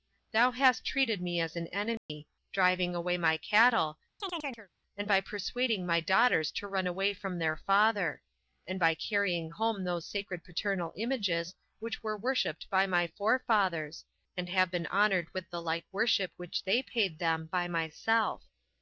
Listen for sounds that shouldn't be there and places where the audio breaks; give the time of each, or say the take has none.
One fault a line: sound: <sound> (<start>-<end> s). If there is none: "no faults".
sound: dropout (2.0-2.1 s)
sound: chirp (4.2-4.7 s)